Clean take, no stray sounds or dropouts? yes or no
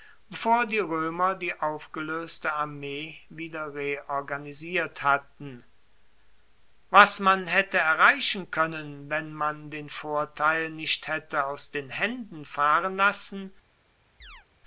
no